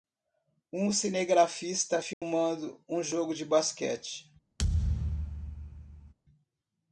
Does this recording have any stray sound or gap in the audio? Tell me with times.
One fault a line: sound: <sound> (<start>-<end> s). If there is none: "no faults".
sound: dropout (2.1-2.2 s)
sound: thud (4.6-6.1 s)